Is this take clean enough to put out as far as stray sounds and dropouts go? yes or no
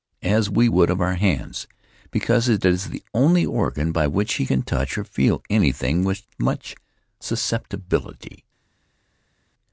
yes